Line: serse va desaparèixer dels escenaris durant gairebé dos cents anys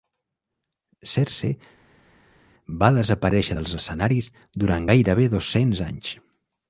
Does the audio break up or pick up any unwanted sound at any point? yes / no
no